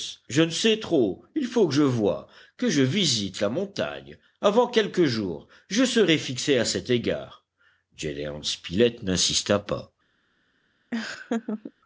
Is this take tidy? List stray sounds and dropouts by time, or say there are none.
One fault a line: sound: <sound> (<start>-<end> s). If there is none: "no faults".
sound: laugh (10.9-11.7 s)